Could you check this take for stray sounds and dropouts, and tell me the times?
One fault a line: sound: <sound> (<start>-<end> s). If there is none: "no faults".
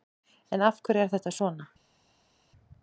no faults